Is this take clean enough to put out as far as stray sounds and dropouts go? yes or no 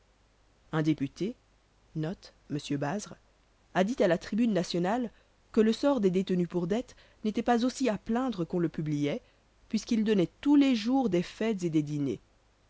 yes